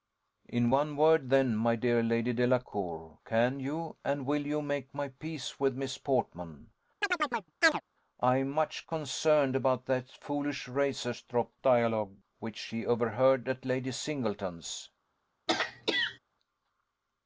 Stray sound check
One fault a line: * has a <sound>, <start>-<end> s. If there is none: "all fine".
* has a chirp, 7.0-7.8 s
* has a throat clearing, 15.5-16.2 s